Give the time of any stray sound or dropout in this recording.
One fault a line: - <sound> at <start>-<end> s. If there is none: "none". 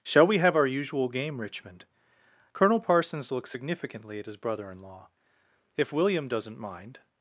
none